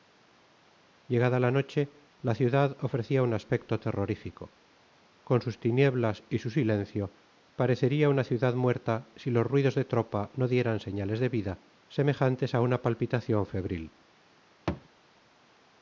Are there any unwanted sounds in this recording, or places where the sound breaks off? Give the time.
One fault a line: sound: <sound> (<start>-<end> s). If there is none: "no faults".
sound: thud (14.7-14.9 s)